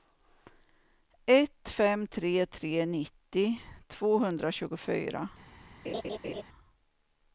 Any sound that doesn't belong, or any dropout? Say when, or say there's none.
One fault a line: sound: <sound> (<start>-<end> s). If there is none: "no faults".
sound: laugh (5.8-6.4 s)